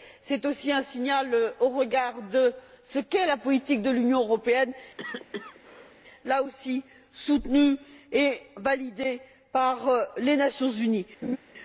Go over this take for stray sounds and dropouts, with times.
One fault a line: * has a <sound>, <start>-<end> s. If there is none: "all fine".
* has a cough, 5.0-6.0 s
* has a laugh, 11.2-11.4 s